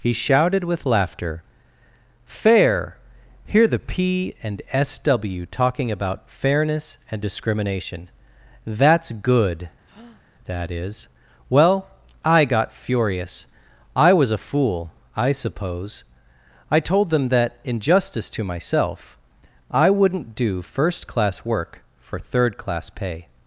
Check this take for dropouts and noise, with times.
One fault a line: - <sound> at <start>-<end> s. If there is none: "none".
- breath at 9.8-10.2 s